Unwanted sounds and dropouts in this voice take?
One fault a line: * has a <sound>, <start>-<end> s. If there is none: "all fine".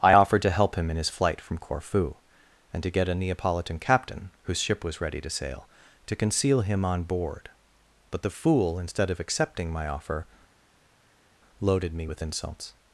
all fine